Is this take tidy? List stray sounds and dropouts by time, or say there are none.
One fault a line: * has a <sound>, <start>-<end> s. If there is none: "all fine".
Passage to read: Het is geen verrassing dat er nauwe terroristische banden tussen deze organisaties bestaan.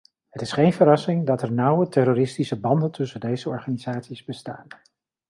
all fine